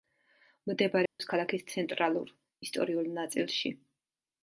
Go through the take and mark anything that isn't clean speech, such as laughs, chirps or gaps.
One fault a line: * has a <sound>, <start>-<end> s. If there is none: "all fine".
* has a dropout, 1.1-1.2 s